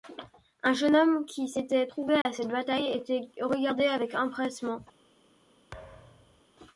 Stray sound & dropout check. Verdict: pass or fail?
fail